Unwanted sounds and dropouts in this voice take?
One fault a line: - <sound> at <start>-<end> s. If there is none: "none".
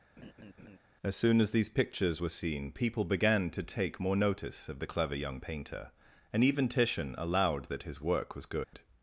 - laugh at 0.2-0.8 s
- dropout at 8.6-8.7 s